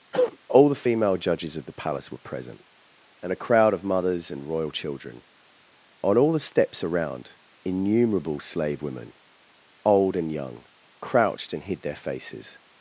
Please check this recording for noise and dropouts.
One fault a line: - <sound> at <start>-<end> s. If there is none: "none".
- cough at 0.1-0.4 s